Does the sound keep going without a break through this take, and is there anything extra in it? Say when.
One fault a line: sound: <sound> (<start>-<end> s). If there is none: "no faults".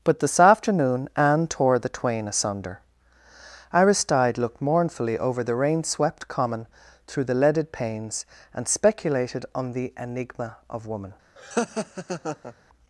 sound: laugh (11.4-12.5 s)